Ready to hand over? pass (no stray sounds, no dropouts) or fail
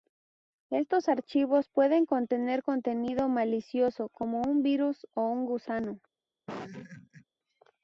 fail